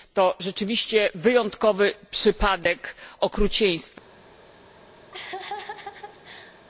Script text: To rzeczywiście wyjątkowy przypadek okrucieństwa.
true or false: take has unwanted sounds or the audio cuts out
true